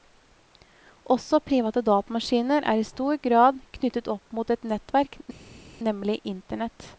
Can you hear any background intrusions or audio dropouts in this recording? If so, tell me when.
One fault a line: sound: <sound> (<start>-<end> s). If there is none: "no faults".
no faults